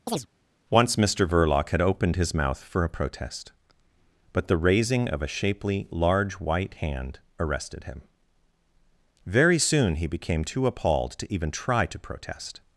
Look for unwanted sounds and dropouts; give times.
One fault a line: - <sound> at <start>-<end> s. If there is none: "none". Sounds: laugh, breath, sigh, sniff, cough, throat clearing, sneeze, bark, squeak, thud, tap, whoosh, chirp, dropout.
- chirp at 0.1-0.3 s